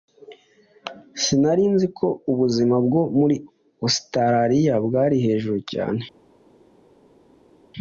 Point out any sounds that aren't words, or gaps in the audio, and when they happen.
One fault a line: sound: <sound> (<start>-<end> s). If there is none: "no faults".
no faults